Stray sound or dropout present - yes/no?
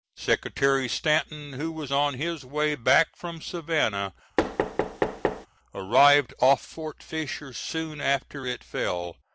yes